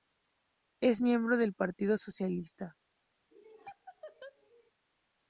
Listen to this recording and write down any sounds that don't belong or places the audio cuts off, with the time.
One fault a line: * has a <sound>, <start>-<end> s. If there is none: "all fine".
* has a laugh, 3.3-4.7 s